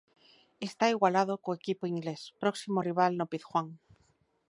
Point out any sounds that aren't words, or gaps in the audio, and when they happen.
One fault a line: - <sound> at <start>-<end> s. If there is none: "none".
none